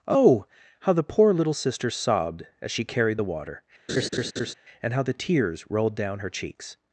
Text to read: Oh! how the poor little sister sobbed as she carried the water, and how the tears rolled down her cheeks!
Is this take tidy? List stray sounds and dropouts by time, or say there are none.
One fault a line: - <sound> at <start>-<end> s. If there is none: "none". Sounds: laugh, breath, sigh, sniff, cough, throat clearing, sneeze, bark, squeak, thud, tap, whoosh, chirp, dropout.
- laugh at 3.9-4.5 s